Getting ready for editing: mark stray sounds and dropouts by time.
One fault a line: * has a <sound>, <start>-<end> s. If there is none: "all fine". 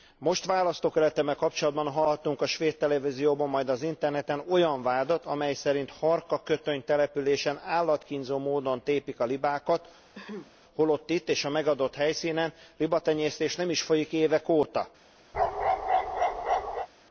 * has a throat clearing, 10.1-10.5 s
* has a bark, 15.3-16.9 s